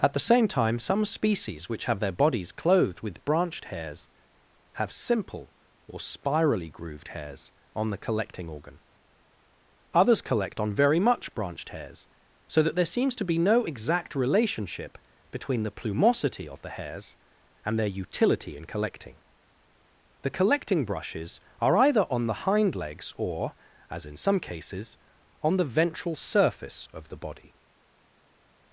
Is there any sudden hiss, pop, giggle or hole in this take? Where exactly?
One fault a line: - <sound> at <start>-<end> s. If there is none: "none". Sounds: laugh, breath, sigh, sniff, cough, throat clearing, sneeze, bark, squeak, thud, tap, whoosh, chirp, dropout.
none